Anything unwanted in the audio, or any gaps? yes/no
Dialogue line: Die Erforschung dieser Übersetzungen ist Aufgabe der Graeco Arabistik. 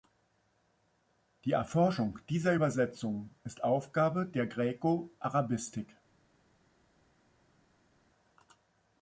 no